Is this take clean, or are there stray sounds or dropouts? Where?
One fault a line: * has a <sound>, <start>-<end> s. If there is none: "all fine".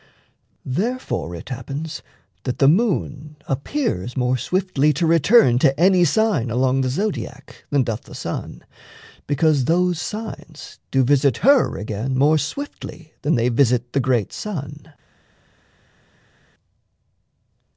all fine